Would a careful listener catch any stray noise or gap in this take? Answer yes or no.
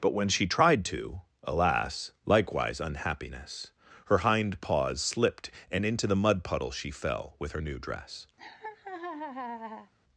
yes